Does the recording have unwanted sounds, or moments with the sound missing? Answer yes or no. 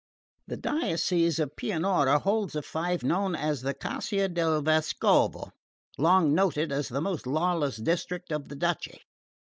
no